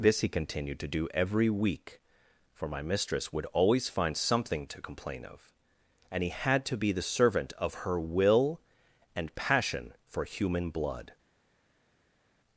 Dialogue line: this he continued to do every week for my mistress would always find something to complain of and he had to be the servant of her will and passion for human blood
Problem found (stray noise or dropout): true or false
false